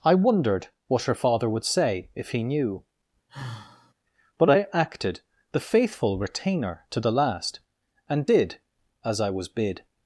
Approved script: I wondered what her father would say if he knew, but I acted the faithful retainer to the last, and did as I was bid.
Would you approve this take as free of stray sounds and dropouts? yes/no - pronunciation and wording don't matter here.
no